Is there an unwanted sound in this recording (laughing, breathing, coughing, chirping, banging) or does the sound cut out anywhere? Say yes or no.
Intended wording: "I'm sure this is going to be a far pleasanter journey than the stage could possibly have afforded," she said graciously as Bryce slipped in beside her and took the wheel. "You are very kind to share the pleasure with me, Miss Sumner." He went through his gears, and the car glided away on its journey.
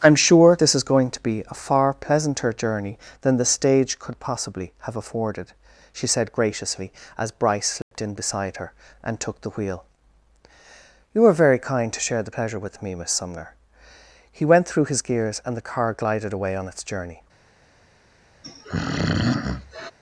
yes